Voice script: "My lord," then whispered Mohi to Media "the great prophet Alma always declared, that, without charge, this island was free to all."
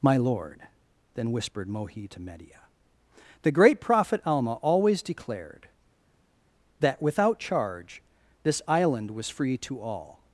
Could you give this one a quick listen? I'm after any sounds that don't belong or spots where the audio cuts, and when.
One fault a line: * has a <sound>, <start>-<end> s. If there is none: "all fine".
all fine